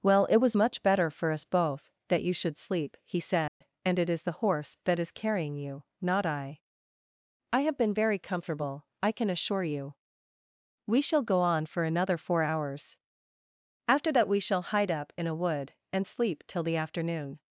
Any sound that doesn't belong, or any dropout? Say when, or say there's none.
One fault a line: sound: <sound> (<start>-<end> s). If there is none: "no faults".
sound: dropout (3.5-3.6 s)